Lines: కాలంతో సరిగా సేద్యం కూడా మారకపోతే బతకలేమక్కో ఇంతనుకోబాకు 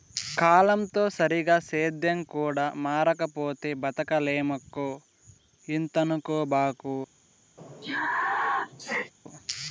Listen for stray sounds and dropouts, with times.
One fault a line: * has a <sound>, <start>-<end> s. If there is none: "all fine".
* has a sneeze, 7.6-9.1 s